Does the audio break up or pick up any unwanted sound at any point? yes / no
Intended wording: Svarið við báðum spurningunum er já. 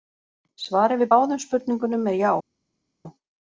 no